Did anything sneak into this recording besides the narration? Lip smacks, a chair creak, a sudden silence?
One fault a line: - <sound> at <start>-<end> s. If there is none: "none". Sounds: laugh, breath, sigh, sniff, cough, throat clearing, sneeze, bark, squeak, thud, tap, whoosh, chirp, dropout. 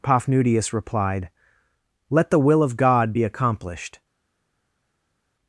none